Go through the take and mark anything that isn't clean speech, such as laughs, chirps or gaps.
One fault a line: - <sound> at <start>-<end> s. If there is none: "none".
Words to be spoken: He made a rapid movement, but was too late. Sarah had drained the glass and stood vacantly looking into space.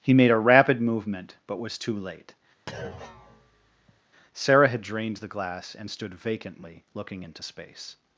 - thud at 2.7-4.0 s